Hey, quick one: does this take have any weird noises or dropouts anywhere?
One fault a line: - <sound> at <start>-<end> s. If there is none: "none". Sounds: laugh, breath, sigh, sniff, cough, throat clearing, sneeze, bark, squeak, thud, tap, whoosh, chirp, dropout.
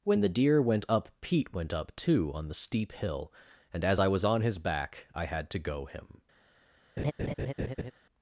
- laugh at 7.0-7.9 s